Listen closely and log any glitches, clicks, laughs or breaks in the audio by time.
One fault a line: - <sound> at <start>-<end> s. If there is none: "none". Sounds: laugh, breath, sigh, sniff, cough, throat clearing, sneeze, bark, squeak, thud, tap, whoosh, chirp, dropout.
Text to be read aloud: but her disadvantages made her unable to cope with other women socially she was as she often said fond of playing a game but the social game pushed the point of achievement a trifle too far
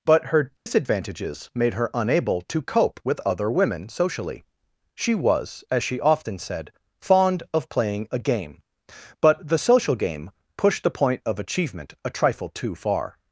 - dropout at 0.6-0.7 s